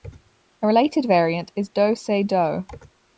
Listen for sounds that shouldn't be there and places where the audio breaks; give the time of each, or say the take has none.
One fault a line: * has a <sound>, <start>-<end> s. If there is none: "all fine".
all fine